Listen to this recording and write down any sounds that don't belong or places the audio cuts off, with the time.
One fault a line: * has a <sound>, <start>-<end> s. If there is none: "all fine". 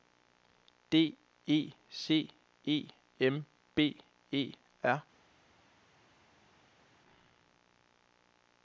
all fine